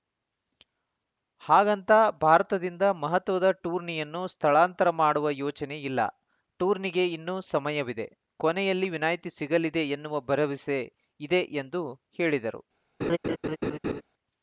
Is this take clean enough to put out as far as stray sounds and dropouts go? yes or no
no